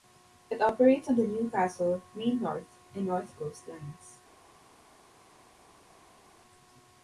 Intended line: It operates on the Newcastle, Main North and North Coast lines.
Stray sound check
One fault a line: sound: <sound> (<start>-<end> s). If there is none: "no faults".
no faults